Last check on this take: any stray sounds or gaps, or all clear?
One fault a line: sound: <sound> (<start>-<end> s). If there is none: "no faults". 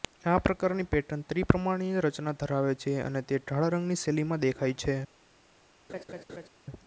sound: laugh (5.9-6.5 s)